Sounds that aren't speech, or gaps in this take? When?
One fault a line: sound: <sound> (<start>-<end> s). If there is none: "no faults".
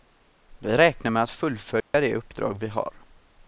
sound: dropout (1.8-1.9 s)